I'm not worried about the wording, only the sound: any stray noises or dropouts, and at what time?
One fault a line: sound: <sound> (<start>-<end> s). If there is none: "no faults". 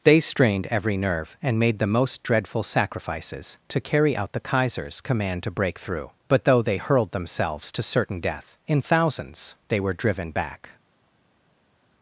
no faults